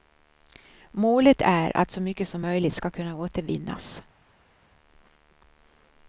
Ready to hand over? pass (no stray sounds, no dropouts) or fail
pass